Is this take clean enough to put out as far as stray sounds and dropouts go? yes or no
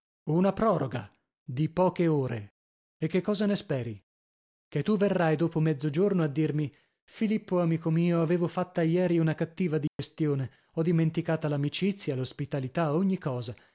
no